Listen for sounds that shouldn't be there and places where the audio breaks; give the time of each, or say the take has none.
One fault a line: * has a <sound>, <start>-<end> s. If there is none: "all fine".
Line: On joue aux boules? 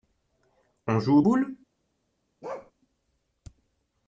* has a bark, 2.4-2.7 s